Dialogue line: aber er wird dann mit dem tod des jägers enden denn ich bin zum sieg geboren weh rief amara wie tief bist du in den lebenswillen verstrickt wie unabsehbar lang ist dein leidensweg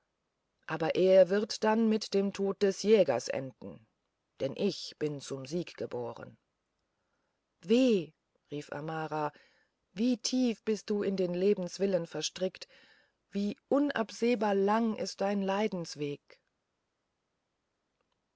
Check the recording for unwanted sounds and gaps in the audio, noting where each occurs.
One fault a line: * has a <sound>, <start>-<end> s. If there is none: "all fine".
all fine